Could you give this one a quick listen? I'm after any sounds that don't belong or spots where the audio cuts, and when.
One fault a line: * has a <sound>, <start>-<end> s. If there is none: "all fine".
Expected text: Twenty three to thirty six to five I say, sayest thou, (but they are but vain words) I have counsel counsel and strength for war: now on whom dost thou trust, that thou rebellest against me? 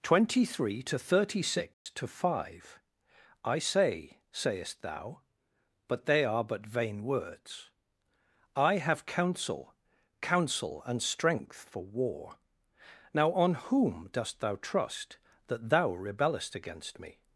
* has a dropout, 1.7-1.9 s